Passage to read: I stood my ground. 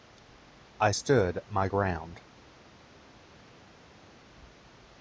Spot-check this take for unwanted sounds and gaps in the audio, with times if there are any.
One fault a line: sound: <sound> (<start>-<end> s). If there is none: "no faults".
no faults